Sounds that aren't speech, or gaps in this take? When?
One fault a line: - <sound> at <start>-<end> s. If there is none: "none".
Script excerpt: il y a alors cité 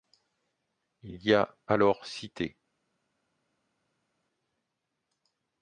none